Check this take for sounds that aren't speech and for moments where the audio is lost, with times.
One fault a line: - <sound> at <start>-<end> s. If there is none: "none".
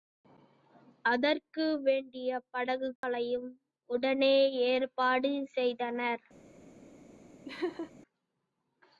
- dropout at 3.0-3.0 s
- laugh at 7.4-7.9 s